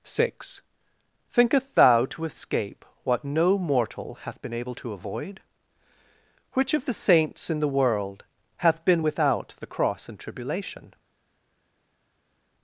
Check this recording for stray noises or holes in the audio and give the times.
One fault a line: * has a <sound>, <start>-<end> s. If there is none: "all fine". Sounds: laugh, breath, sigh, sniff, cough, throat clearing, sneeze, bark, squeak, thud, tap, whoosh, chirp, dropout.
all fine